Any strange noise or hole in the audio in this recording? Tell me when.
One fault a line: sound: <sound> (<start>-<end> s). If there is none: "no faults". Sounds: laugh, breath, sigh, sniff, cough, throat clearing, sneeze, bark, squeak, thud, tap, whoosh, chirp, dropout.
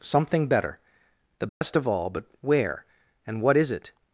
sound: dropout (1.5-1.6 s)